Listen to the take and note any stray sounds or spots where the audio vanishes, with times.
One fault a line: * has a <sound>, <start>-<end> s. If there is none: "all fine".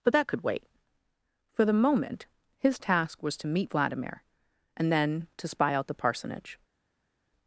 all fine